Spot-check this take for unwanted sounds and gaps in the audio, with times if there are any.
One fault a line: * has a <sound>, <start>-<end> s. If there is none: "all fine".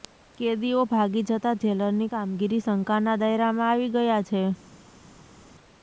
all fine